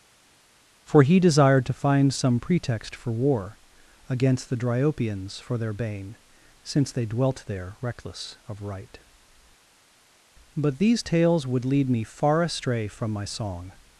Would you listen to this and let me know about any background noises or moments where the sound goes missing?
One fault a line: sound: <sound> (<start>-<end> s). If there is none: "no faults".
no faults